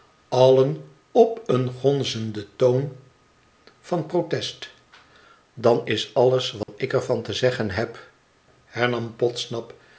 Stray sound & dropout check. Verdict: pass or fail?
fail